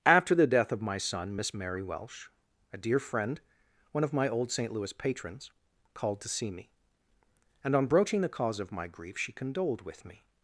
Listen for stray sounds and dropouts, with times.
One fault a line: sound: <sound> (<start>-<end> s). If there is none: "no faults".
no faults